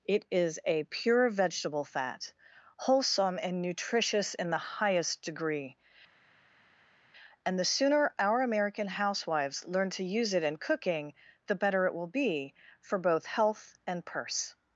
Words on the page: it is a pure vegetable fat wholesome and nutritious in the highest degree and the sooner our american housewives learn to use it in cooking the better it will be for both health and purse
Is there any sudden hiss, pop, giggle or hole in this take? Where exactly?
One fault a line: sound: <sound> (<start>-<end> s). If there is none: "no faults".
no faults